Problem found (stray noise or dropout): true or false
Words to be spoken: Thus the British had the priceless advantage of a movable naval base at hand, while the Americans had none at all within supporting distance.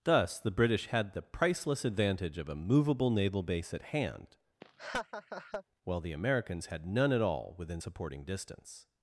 true